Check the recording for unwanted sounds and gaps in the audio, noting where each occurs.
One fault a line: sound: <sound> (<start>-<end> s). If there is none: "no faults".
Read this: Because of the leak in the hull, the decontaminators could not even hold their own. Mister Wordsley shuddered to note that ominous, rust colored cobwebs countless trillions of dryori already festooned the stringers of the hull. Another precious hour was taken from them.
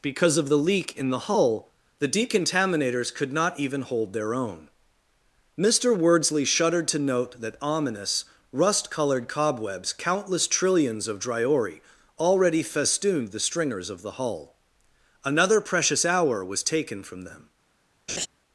sound: laugh (18.1-18.3 s)